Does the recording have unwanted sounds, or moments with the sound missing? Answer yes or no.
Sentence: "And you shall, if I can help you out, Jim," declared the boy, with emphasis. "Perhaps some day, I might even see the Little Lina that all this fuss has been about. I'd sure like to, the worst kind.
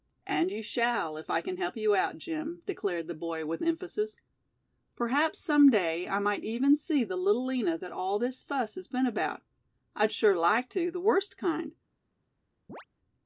yes